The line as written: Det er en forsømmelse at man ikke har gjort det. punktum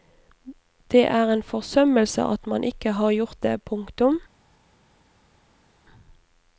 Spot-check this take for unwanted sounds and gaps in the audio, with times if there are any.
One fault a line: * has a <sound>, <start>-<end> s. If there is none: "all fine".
all fine